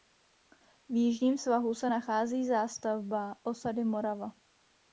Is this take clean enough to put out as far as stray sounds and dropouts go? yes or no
yes